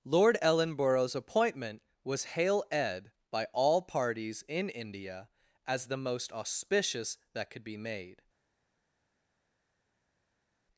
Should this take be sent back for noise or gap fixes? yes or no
no